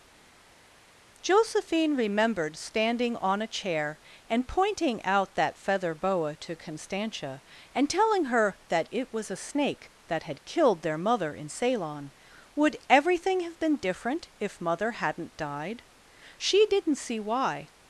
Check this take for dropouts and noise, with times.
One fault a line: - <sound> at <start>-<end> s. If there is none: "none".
none